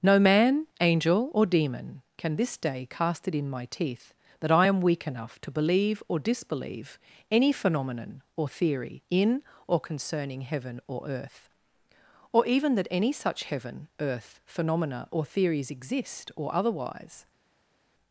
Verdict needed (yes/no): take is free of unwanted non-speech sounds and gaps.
yes